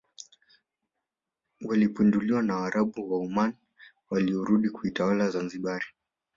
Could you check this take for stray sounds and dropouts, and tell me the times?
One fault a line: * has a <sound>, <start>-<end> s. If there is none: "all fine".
all fine